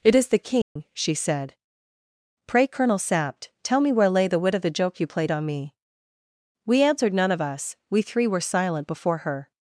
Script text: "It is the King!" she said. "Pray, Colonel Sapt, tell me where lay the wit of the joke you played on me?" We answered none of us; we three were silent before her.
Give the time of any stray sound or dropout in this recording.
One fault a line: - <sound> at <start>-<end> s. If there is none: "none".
- dropout at 0.6-0.8 s